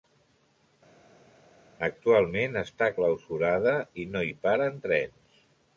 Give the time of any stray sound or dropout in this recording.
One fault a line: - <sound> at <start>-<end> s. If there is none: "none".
none